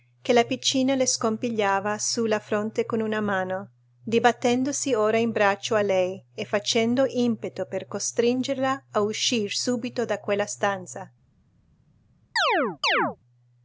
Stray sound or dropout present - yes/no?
yes